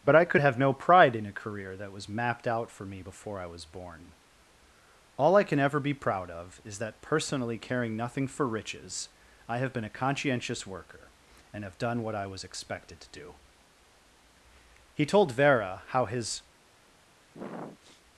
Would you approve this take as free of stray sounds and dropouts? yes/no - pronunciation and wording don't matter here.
no